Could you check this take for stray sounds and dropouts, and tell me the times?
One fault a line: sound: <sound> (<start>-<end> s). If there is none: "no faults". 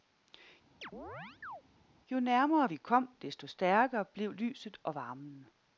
sound: chirp (0.8-1.6 s)